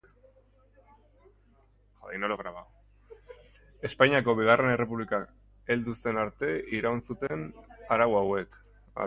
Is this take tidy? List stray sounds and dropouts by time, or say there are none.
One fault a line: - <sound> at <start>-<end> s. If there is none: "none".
- dropout at 7.3-7.3 s